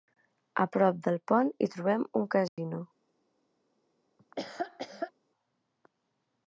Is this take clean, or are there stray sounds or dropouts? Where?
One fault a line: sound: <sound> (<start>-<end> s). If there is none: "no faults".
sound: dropout (2.5-2.6 s)
sound: laugh (4.2-5.1 s)